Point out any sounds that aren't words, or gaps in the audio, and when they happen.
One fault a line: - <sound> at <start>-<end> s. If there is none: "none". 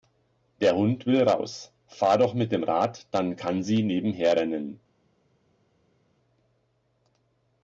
none